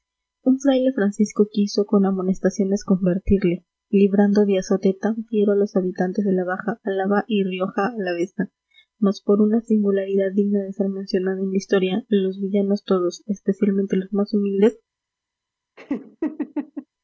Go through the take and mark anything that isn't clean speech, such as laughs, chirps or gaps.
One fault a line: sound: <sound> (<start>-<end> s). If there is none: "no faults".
sound: laugh (15.8-16.9 s)